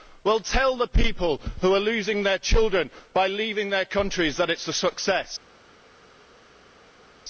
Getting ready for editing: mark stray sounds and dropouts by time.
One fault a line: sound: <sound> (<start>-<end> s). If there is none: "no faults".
no faults